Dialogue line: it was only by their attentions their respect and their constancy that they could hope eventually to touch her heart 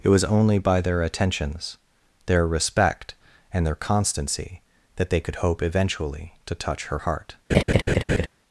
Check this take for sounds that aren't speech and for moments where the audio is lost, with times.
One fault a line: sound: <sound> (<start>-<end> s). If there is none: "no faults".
sound: laugh (7.5-8.3 s)